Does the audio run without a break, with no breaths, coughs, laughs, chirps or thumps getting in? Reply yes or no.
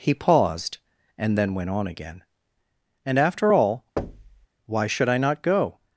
no